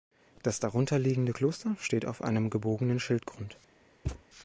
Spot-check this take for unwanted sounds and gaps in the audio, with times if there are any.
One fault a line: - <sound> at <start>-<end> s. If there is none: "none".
- thud at 4.1-4.2 s